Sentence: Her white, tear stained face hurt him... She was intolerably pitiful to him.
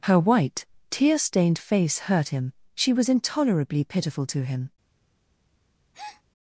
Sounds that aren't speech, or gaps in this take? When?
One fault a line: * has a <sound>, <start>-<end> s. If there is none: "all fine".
* has a breath, 5.9-6.2 s